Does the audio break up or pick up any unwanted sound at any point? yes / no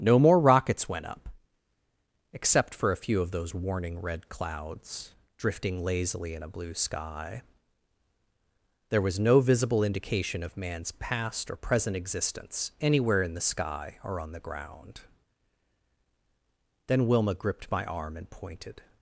no